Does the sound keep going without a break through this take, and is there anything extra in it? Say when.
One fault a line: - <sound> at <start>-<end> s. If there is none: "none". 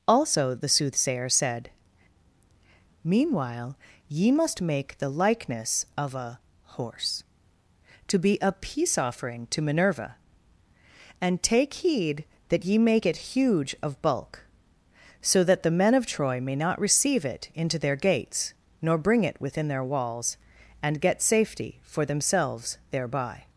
none